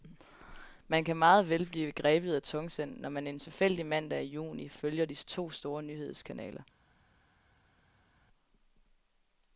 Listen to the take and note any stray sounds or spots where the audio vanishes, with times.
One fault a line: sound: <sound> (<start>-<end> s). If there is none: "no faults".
no faults